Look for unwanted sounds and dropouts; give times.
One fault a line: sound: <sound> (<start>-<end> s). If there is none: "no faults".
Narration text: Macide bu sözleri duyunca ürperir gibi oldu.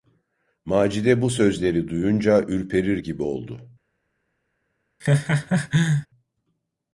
sound: laugh (5.0-6.1 s)